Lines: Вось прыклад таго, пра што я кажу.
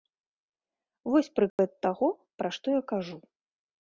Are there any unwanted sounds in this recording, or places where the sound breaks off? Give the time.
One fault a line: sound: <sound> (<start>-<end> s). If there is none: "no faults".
sound: dropout (1.5-1.6 s)